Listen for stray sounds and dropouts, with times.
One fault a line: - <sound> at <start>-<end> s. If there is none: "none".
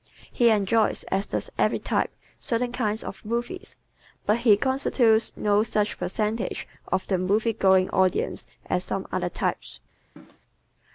- cough at 10.2-10.4 s